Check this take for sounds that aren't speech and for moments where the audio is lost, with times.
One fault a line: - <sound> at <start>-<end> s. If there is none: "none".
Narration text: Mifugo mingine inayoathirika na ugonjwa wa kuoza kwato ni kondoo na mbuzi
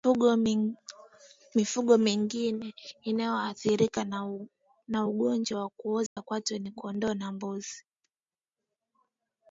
- dropout at 6.1-6.2 s